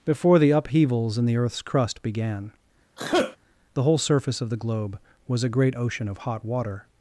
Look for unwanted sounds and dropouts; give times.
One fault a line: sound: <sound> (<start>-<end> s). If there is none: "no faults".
sound: sneeze (3.0-3.4 s)